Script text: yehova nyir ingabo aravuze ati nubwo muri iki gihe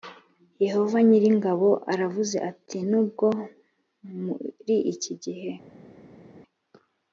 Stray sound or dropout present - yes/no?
no